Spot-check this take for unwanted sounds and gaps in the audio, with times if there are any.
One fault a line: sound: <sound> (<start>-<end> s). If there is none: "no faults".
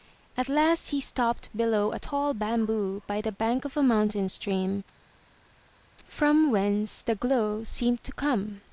no faults